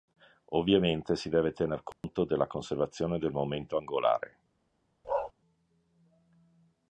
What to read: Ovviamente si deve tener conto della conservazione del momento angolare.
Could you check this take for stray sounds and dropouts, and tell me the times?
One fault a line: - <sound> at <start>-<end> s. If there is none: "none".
- dropout at 1.9-2.0 s
- bark at 5.0-5.3 s